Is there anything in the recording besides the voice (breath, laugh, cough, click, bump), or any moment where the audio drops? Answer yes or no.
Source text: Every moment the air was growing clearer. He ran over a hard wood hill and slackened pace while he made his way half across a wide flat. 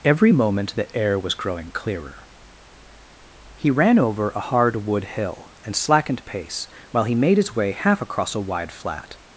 no